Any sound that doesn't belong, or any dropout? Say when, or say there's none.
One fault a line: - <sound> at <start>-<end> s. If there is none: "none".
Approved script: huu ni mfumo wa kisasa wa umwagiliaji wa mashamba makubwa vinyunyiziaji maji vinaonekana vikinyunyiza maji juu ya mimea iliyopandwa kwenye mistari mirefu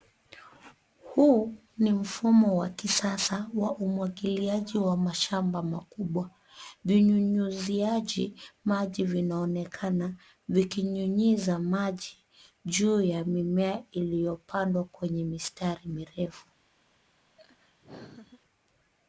- laugh at 17.4-18.4 s